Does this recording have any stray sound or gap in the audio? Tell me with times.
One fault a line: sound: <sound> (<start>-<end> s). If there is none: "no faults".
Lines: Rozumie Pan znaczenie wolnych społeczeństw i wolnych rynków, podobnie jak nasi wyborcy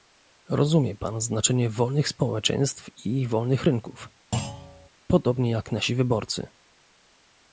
sound: thud (4.3-4.9 s)